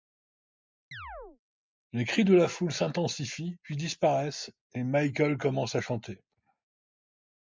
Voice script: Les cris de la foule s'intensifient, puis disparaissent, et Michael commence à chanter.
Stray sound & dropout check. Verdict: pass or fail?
fail